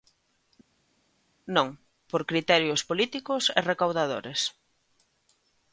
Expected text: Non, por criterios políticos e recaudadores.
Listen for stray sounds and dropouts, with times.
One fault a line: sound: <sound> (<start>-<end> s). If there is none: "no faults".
no faults